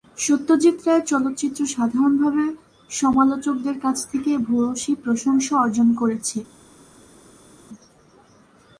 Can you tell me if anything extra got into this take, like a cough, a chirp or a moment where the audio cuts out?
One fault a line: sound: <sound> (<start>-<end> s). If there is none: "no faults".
no faults